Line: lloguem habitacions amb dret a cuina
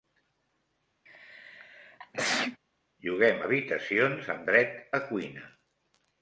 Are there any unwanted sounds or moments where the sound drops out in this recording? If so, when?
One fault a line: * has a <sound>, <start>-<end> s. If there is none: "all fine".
* has a sneeze, 1.1-2.6 s